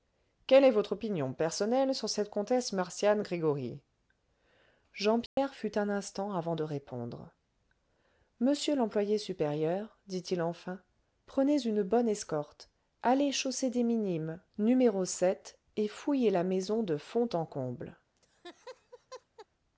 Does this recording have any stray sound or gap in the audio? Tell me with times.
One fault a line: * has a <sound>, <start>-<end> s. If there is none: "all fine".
* has a dropout, 5.3-5.4 s
* has a laugh, 18.2-19.5 s